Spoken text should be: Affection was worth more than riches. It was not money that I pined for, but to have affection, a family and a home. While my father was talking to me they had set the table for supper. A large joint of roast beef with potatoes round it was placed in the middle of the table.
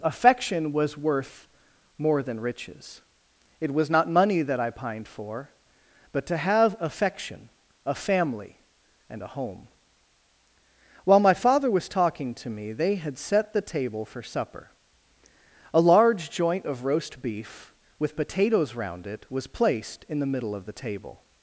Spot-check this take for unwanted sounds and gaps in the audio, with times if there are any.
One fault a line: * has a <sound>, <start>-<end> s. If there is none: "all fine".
all fine